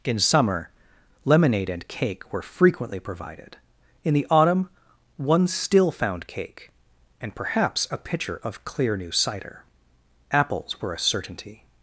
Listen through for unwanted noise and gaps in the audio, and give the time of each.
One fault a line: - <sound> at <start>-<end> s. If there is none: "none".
none